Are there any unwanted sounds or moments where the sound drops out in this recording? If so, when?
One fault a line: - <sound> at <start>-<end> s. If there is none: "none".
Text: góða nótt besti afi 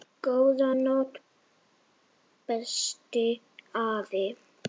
none